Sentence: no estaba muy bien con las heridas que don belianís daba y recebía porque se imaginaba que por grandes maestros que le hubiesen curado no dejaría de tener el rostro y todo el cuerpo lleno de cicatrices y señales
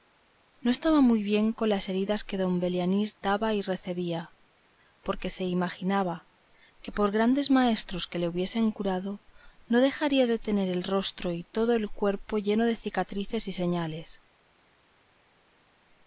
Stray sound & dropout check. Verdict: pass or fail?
pass